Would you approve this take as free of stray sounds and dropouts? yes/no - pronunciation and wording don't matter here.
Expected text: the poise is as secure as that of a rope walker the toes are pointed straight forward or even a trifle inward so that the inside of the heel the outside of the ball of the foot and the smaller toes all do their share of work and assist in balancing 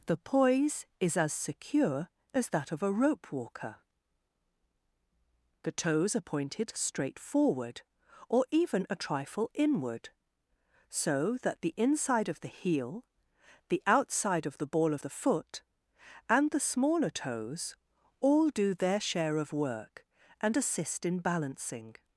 yes